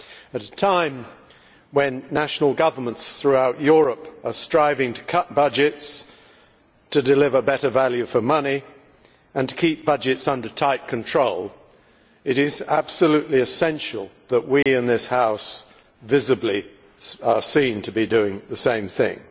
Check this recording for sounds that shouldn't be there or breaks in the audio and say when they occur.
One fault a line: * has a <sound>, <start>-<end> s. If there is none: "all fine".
* has a dropout, 14.6-14.7 s